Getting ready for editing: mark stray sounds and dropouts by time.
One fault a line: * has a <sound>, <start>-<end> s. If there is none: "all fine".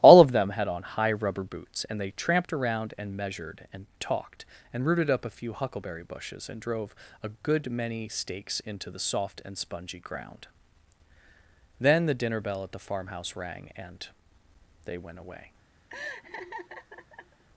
* has a laugh, 15.9-17.4 s